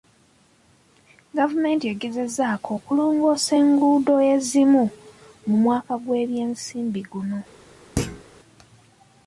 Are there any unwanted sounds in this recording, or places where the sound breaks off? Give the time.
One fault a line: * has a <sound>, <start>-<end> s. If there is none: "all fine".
* has a thud, 8.0-8.2 s